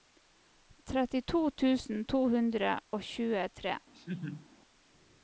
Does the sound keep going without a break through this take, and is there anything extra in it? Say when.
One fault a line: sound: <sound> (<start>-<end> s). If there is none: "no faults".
sound: laugh (3.9-4.5 s)